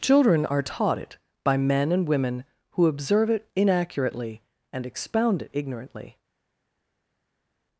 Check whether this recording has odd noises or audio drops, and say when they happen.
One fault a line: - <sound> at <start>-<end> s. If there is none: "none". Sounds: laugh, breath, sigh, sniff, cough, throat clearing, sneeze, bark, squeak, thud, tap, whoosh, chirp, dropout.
none